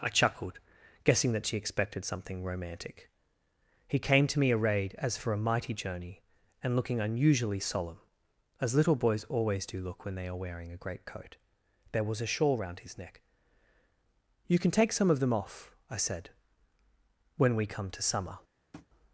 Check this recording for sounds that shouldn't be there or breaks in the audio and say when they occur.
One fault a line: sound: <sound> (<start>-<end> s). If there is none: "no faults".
sound: tap (18.7-18.9 s)